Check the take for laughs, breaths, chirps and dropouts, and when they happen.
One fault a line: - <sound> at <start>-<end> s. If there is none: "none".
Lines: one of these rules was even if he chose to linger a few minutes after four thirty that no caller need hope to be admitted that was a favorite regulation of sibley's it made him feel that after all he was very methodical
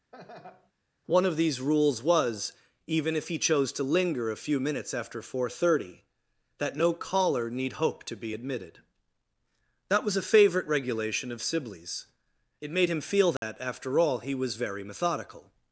- laugh at 0.1-0.7 s
- dropout at 13.4-13.4 s